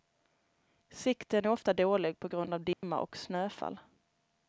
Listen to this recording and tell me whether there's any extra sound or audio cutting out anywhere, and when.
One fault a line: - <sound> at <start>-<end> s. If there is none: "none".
- dropout at 2.7-2.8 s